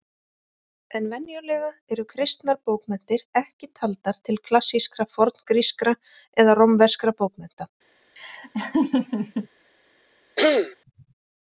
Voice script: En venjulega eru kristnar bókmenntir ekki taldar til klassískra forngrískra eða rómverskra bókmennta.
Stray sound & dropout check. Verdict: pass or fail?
fail